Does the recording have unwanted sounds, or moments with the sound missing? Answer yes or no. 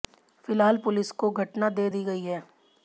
no